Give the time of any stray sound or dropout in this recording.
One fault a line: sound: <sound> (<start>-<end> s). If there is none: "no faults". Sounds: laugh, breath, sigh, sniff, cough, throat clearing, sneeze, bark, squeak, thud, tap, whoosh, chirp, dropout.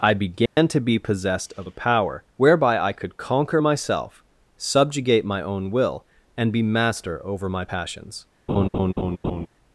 sound: dropout (0.5-0.6 s)
sound: laugh (8.5-9.5 s)